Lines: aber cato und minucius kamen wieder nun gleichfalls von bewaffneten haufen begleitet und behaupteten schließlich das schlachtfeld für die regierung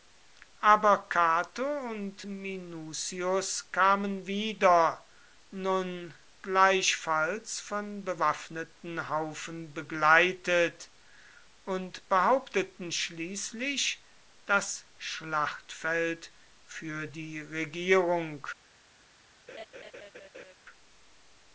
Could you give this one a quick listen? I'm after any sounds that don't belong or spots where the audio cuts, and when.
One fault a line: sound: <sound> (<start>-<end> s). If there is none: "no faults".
sound: laugh (19.5-20.5 s)